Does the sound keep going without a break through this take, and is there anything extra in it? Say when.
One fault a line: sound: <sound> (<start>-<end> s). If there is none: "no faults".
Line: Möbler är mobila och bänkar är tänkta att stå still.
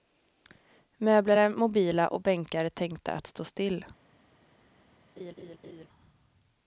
sound: laugh (5.2-5.9 s)